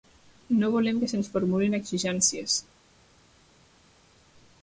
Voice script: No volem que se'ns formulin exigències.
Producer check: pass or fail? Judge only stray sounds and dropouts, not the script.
pass